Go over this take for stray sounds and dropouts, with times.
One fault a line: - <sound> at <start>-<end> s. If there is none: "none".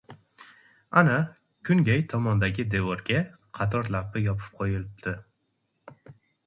none